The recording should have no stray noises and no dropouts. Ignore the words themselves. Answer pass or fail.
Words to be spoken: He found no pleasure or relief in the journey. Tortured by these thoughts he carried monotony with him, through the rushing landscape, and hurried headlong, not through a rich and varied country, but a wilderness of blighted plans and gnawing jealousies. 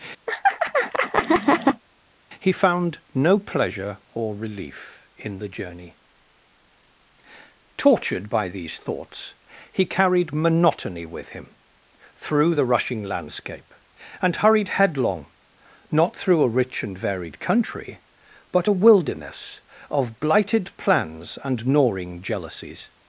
fail